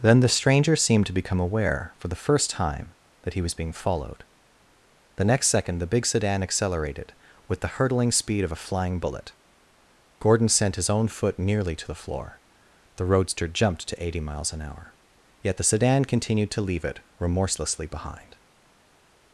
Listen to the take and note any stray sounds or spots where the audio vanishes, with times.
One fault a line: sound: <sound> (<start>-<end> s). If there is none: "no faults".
no faults